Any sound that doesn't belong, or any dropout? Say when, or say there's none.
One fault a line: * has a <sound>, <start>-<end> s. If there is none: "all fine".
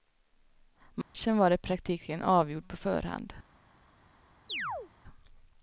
* has a dropout, 1.0-1.1 s
* has a chirp, 4.5-4.9 s